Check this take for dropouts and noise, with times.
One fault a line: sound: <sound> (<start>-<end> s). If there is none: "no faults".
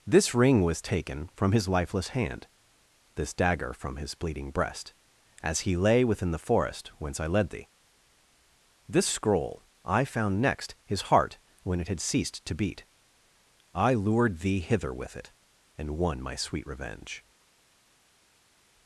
no faults